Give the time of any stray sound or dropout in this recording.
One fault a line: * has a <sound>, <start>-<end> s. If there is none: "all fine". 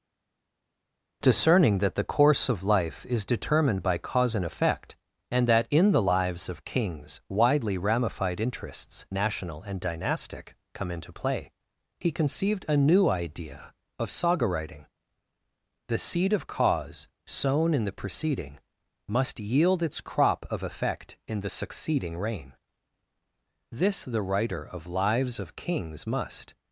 all fine